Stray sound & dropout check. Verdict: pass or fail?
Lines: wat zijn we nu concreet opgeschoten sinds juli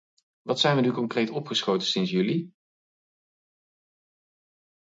pass